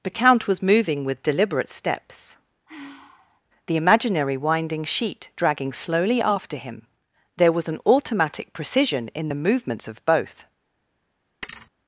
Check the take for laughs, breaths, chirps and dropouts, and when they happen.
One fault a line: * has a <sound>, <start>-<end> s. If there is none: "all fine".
* has a sigh, 2.7-3.4 s
* has a thud, 11.4-11.7 s